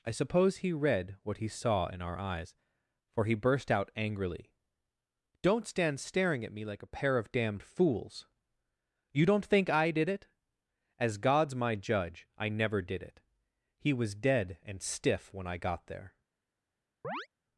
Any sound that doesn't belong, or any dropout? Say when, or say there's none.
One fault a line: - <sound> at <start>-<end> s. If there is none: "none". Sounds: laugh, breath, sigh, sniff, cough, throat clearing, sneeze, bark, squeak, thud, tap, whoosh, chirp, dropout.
- chirp at 17.0-17.3 s